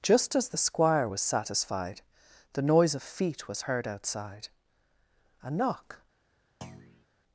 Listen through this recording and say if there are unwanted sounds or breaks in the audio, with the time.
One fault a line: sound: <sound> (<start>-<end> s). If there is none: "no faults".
sound: thud (6.6-7.1 s)